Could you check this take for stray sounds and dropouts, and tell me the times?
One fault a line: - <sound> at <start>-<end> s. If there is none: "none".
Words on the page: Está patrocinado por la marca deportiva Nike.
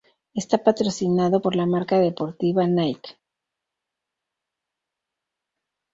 none